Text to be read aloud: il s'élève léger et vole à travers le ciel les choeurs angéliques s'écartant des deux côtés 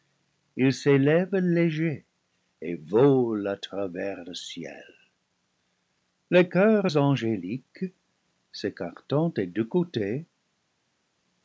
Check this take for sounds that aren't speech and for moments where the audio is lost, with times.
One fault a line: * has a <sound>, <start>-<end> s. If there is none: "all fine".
all fine